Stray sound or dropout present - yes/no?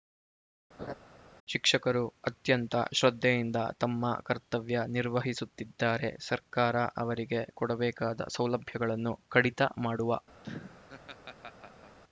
yes